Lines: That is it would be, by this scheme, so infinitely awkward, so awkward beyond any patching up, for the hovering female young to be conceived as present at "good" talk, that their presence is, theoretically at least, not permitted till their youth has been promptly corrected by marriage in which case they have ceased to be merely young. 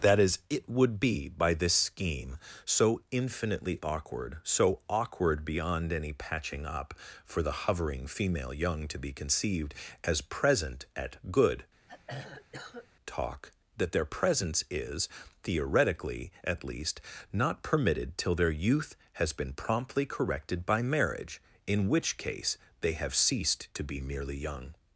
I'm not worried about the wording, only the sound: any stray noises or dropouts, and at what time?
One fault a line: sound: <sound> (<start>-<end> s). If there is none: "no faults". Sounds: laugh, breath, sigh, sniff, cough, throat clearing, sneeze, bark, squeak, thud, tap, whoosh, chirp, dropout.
sound: throat clearing (11.9-12.9 s)